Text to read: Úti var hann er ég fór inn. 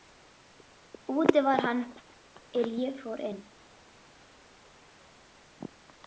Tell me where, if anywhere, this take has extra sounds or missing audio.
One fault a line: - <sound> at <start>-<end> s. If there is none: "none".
none